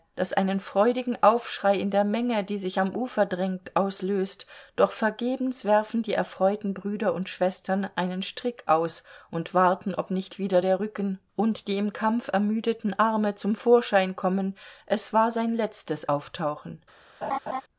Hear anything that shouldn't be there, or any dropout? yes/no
yes